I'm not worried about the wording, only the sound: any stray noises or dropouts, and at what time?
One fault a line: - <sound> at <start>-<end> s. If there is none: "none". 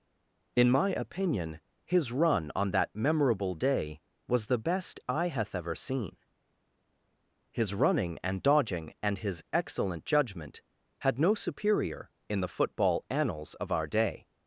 none